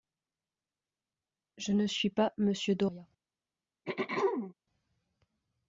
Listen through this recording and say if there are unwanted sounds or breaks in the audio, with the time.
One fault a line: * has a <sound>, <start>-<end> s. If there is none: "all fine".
* has a throat clearing, 3.8-4.5 s